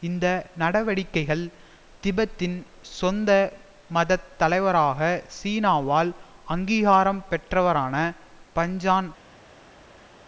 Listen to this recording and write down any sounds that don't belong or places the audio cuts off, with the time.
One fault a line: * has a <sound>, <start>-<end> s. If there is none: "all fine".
all fine